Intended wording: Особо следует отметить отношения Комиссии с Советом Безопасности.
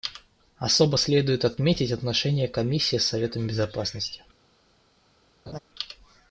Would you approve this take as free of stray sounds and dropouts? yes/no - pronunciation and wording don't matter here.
no